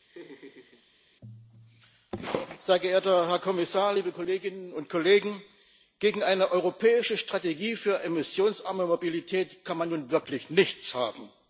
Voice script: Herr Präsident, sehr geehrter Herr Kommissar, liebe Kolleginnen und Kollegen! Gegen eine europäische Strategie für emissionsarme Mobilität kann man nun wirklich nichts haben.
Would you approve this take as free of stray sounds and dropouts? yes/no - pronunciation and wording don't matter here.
no